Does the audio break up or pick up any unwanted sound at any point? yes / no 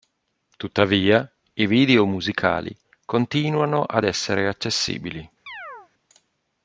yes